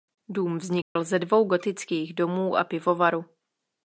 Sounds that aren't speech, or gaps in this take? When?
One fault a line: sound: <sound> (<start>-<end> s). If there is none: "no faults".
sound: dropout (0.8-1.0 s)